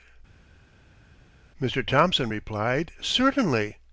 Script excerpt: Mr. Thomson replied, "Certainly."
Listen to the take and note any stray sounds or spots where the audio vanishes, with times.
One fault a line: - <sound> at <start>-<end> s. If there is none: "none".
none